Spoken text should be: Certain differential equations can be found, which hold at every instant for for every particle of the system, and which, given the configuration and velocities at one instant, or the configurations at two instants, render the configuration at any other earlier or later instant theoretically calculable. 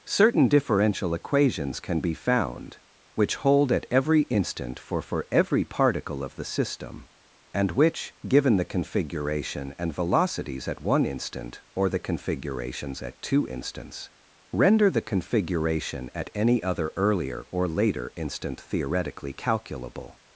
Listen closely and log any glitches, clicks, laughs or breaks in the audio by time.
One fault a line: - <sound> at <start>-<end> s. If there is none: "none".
none